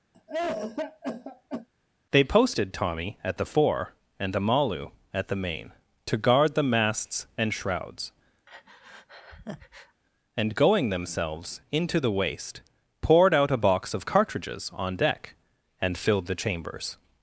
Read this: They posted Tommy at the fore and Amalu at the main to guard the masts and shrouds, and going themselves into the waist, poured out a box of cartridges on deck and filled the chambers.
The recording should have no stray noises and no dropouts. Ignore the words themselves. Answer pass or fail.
fail